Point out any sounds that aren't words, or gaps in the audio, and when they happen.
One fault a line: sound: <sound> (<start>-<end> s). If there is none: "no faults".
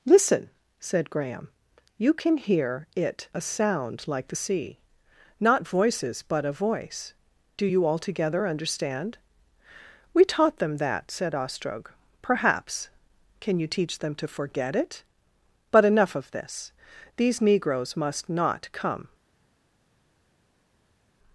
no faults